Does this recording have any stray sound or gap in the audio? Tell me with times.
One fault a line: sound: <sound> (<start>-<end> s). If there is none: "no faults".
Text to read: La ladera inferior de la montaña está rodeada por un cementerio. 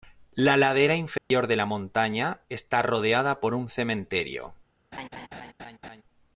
sound: dropout (1.2-1.3 s)
sound: laugh (4.9-6.0 s)